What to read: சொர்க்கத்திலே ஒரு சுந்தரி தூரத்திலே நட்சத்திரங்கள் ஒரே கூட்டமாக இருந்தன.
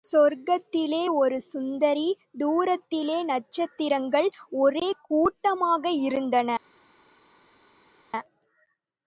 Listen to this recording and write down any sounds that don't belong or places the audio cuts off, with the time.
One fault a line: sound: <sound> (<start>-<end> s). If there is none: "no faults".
no faults